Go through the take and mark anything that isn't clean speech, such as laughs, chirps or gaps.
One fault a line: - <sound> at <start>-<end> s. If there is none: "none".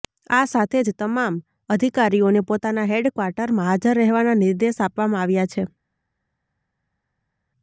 none